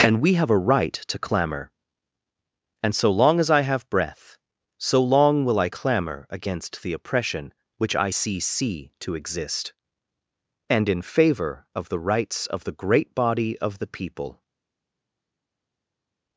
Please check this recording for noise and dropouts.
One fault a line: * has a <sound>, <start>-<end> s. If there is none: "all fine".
all fine